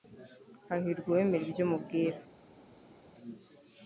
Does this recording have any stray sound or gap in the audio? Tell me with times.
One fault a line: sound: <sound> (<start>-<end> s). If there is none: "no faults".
no faults